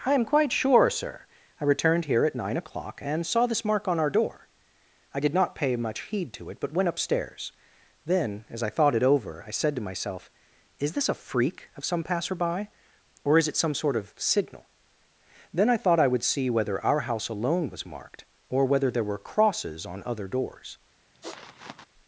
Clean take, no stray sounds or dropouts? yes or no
no